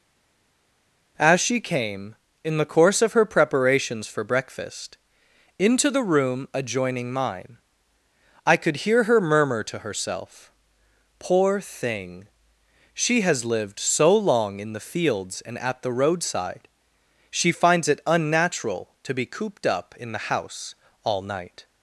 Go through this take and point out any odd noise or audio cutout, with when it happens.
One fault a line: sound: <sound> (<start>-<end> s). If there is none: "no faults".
no faults